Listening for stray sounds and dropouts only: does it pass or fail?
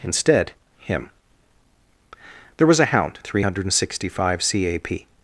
pass